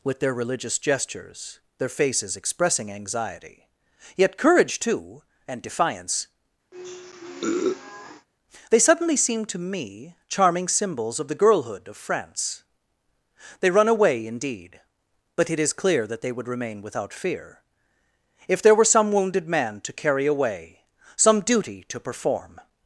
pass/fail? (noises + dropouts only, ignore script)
fail